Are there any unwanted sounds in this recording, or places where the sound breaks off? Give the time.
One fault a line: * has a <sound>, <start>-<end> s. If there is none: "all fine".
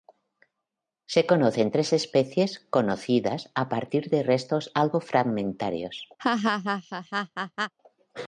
* has a laugh, 6.2-7.7 s